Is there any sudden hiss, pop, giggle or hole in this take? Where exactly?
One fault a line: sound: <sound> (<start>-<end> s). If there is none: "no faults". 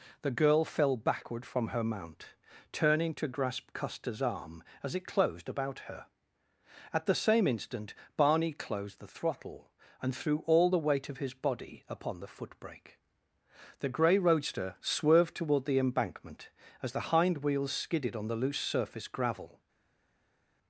no faults